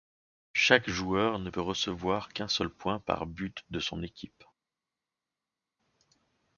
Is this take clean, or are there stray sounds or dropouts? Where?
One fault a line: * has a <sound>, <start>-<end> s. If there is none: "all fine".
all fine